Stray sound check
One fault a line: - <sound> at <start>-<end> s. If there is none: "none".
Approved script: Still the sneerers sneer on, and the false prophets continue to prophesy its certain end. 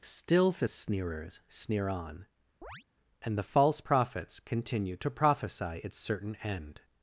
- chirp at 2.6-2.8 s